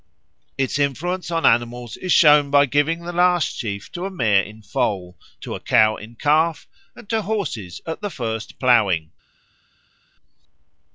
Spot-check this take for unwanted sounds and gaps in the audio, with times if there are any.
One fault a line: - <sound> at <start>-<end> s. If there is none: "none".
none